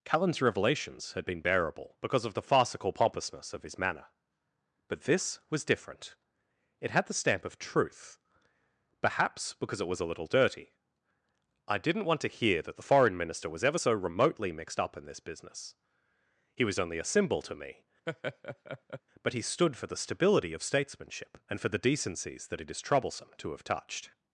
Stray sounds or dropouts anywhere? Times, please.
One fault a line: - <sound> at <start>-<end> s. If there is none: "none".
- laugh at 18.1-19.0 s